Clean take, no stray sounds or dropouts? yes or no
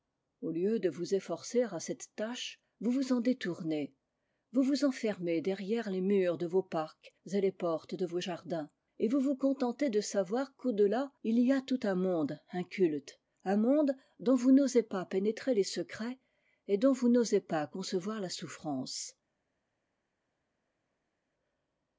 yes